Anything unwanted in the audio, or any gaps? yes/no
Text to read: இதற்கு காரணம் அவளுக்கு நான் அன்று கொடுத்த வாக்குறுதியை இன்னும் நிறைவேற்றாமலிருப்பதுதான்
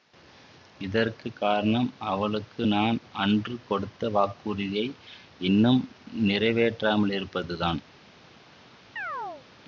yes